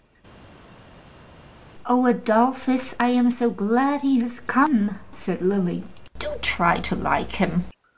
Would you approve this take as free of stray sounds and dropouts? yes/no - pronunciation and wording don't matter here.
yes